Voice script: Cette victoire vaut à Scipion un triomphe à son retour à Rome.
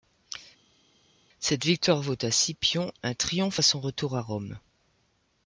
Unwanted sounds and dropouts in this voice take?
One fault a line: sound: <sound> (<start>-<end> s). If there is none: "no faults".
no faults